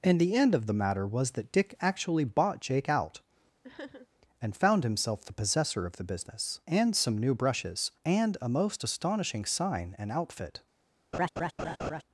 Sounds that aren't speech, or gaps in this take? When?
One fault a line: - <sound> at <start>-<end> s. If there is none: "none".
- sniff at 3.6-4.1 s
- laugh at 11.1-12.0 s